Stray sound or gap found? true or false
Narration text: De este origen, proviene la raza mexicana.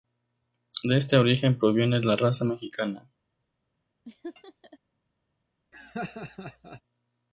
true